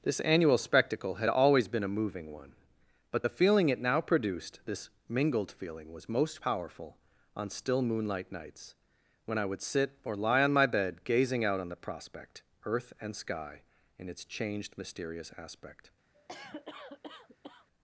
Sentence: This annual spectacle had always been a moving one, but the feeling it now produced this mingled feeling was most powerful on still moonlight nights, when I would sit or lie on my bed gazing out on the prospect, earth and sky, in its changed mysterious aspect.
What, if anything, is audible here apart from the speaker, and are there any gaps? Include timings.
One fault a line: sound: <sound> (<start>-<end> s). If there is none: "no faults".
sound: cough (16.1-17.7 s)